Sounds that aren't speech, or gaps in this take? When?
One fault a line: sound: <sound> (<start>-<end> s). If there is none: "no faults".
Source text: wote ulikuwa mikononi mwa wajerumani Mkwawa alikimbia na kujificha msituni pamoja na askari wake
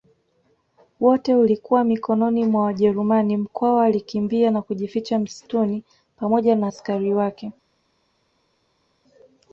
no faults